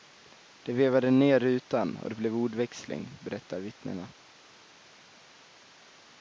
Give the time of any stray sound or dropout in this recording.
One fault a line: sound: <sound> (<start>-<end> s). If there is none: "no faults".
no faults